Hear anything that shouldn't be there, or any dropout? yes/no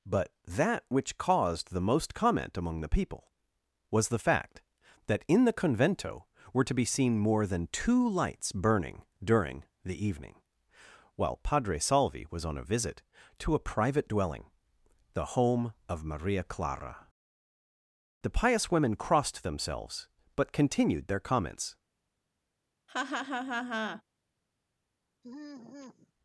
yes